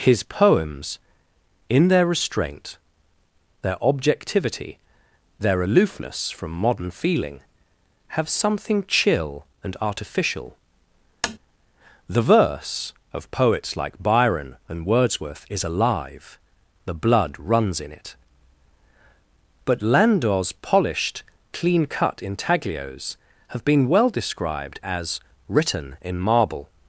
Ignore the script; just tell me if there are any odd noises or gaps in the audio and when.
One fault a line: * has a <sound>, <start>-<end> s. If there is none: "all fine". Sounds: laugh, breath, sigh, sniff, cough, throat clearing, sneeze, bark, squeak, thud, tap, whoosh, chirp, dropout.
* has a tap, 11.2-11.4 s